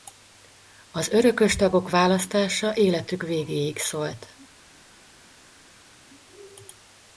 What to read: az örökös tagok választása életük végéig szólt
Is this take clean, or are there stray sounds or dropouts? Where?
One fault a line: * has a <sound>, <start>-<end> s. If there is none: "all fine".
all fine